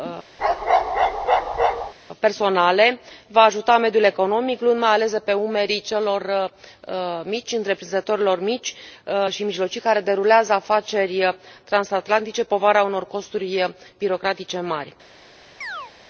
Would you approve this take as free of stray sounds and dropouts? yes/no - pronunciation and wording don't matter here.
no